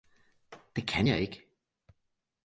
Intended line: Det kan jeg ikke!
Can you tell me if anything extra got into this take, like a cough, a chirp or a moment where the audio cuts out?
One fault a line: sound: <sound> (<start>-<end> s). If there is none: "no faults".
no faults